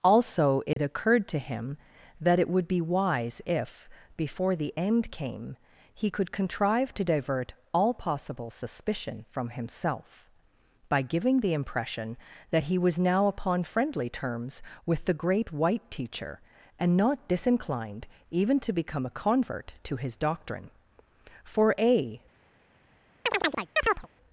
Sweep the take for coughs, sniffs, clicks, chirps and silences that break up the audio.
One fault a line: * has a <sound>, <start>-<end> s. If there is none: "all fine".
* has a dropout, 0.7-0.8 s
* has a chirp, 23.2-24.1 s